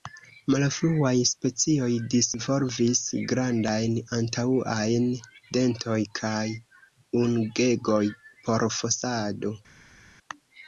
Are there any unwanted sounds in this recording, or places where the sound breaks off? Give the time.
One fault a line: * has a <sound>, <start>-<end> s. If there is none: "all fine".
all fine